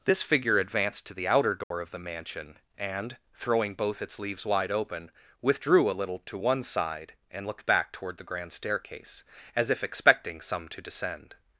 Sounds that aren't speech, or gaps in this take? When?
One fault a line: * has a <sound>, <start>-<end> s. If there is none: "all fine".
* has a dropout, 1.6-1.7 s